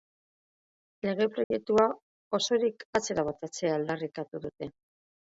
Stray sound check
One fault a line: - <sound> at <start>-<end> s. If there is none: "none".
- dropout at 1.4-1.5 s